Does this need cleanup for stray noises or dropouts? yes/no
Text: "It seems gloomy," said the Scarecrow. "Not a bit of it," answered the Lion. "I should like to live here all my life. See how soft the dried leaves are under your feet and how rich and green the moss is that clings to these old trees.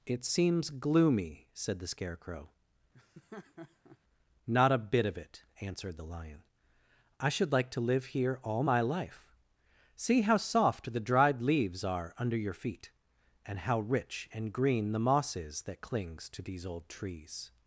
yes